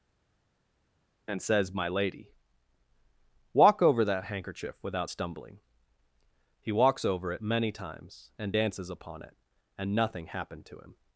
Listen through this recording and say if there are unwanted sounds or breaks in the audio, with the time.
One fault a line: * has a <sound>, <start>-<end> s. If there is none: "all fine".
all fine